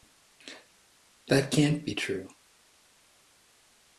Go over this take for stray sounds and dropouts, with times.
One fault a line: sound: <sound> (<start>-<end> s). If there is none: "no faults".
no faults